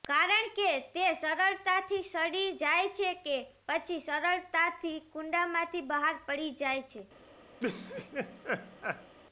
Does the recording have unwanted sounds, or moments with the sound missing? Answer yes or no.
yes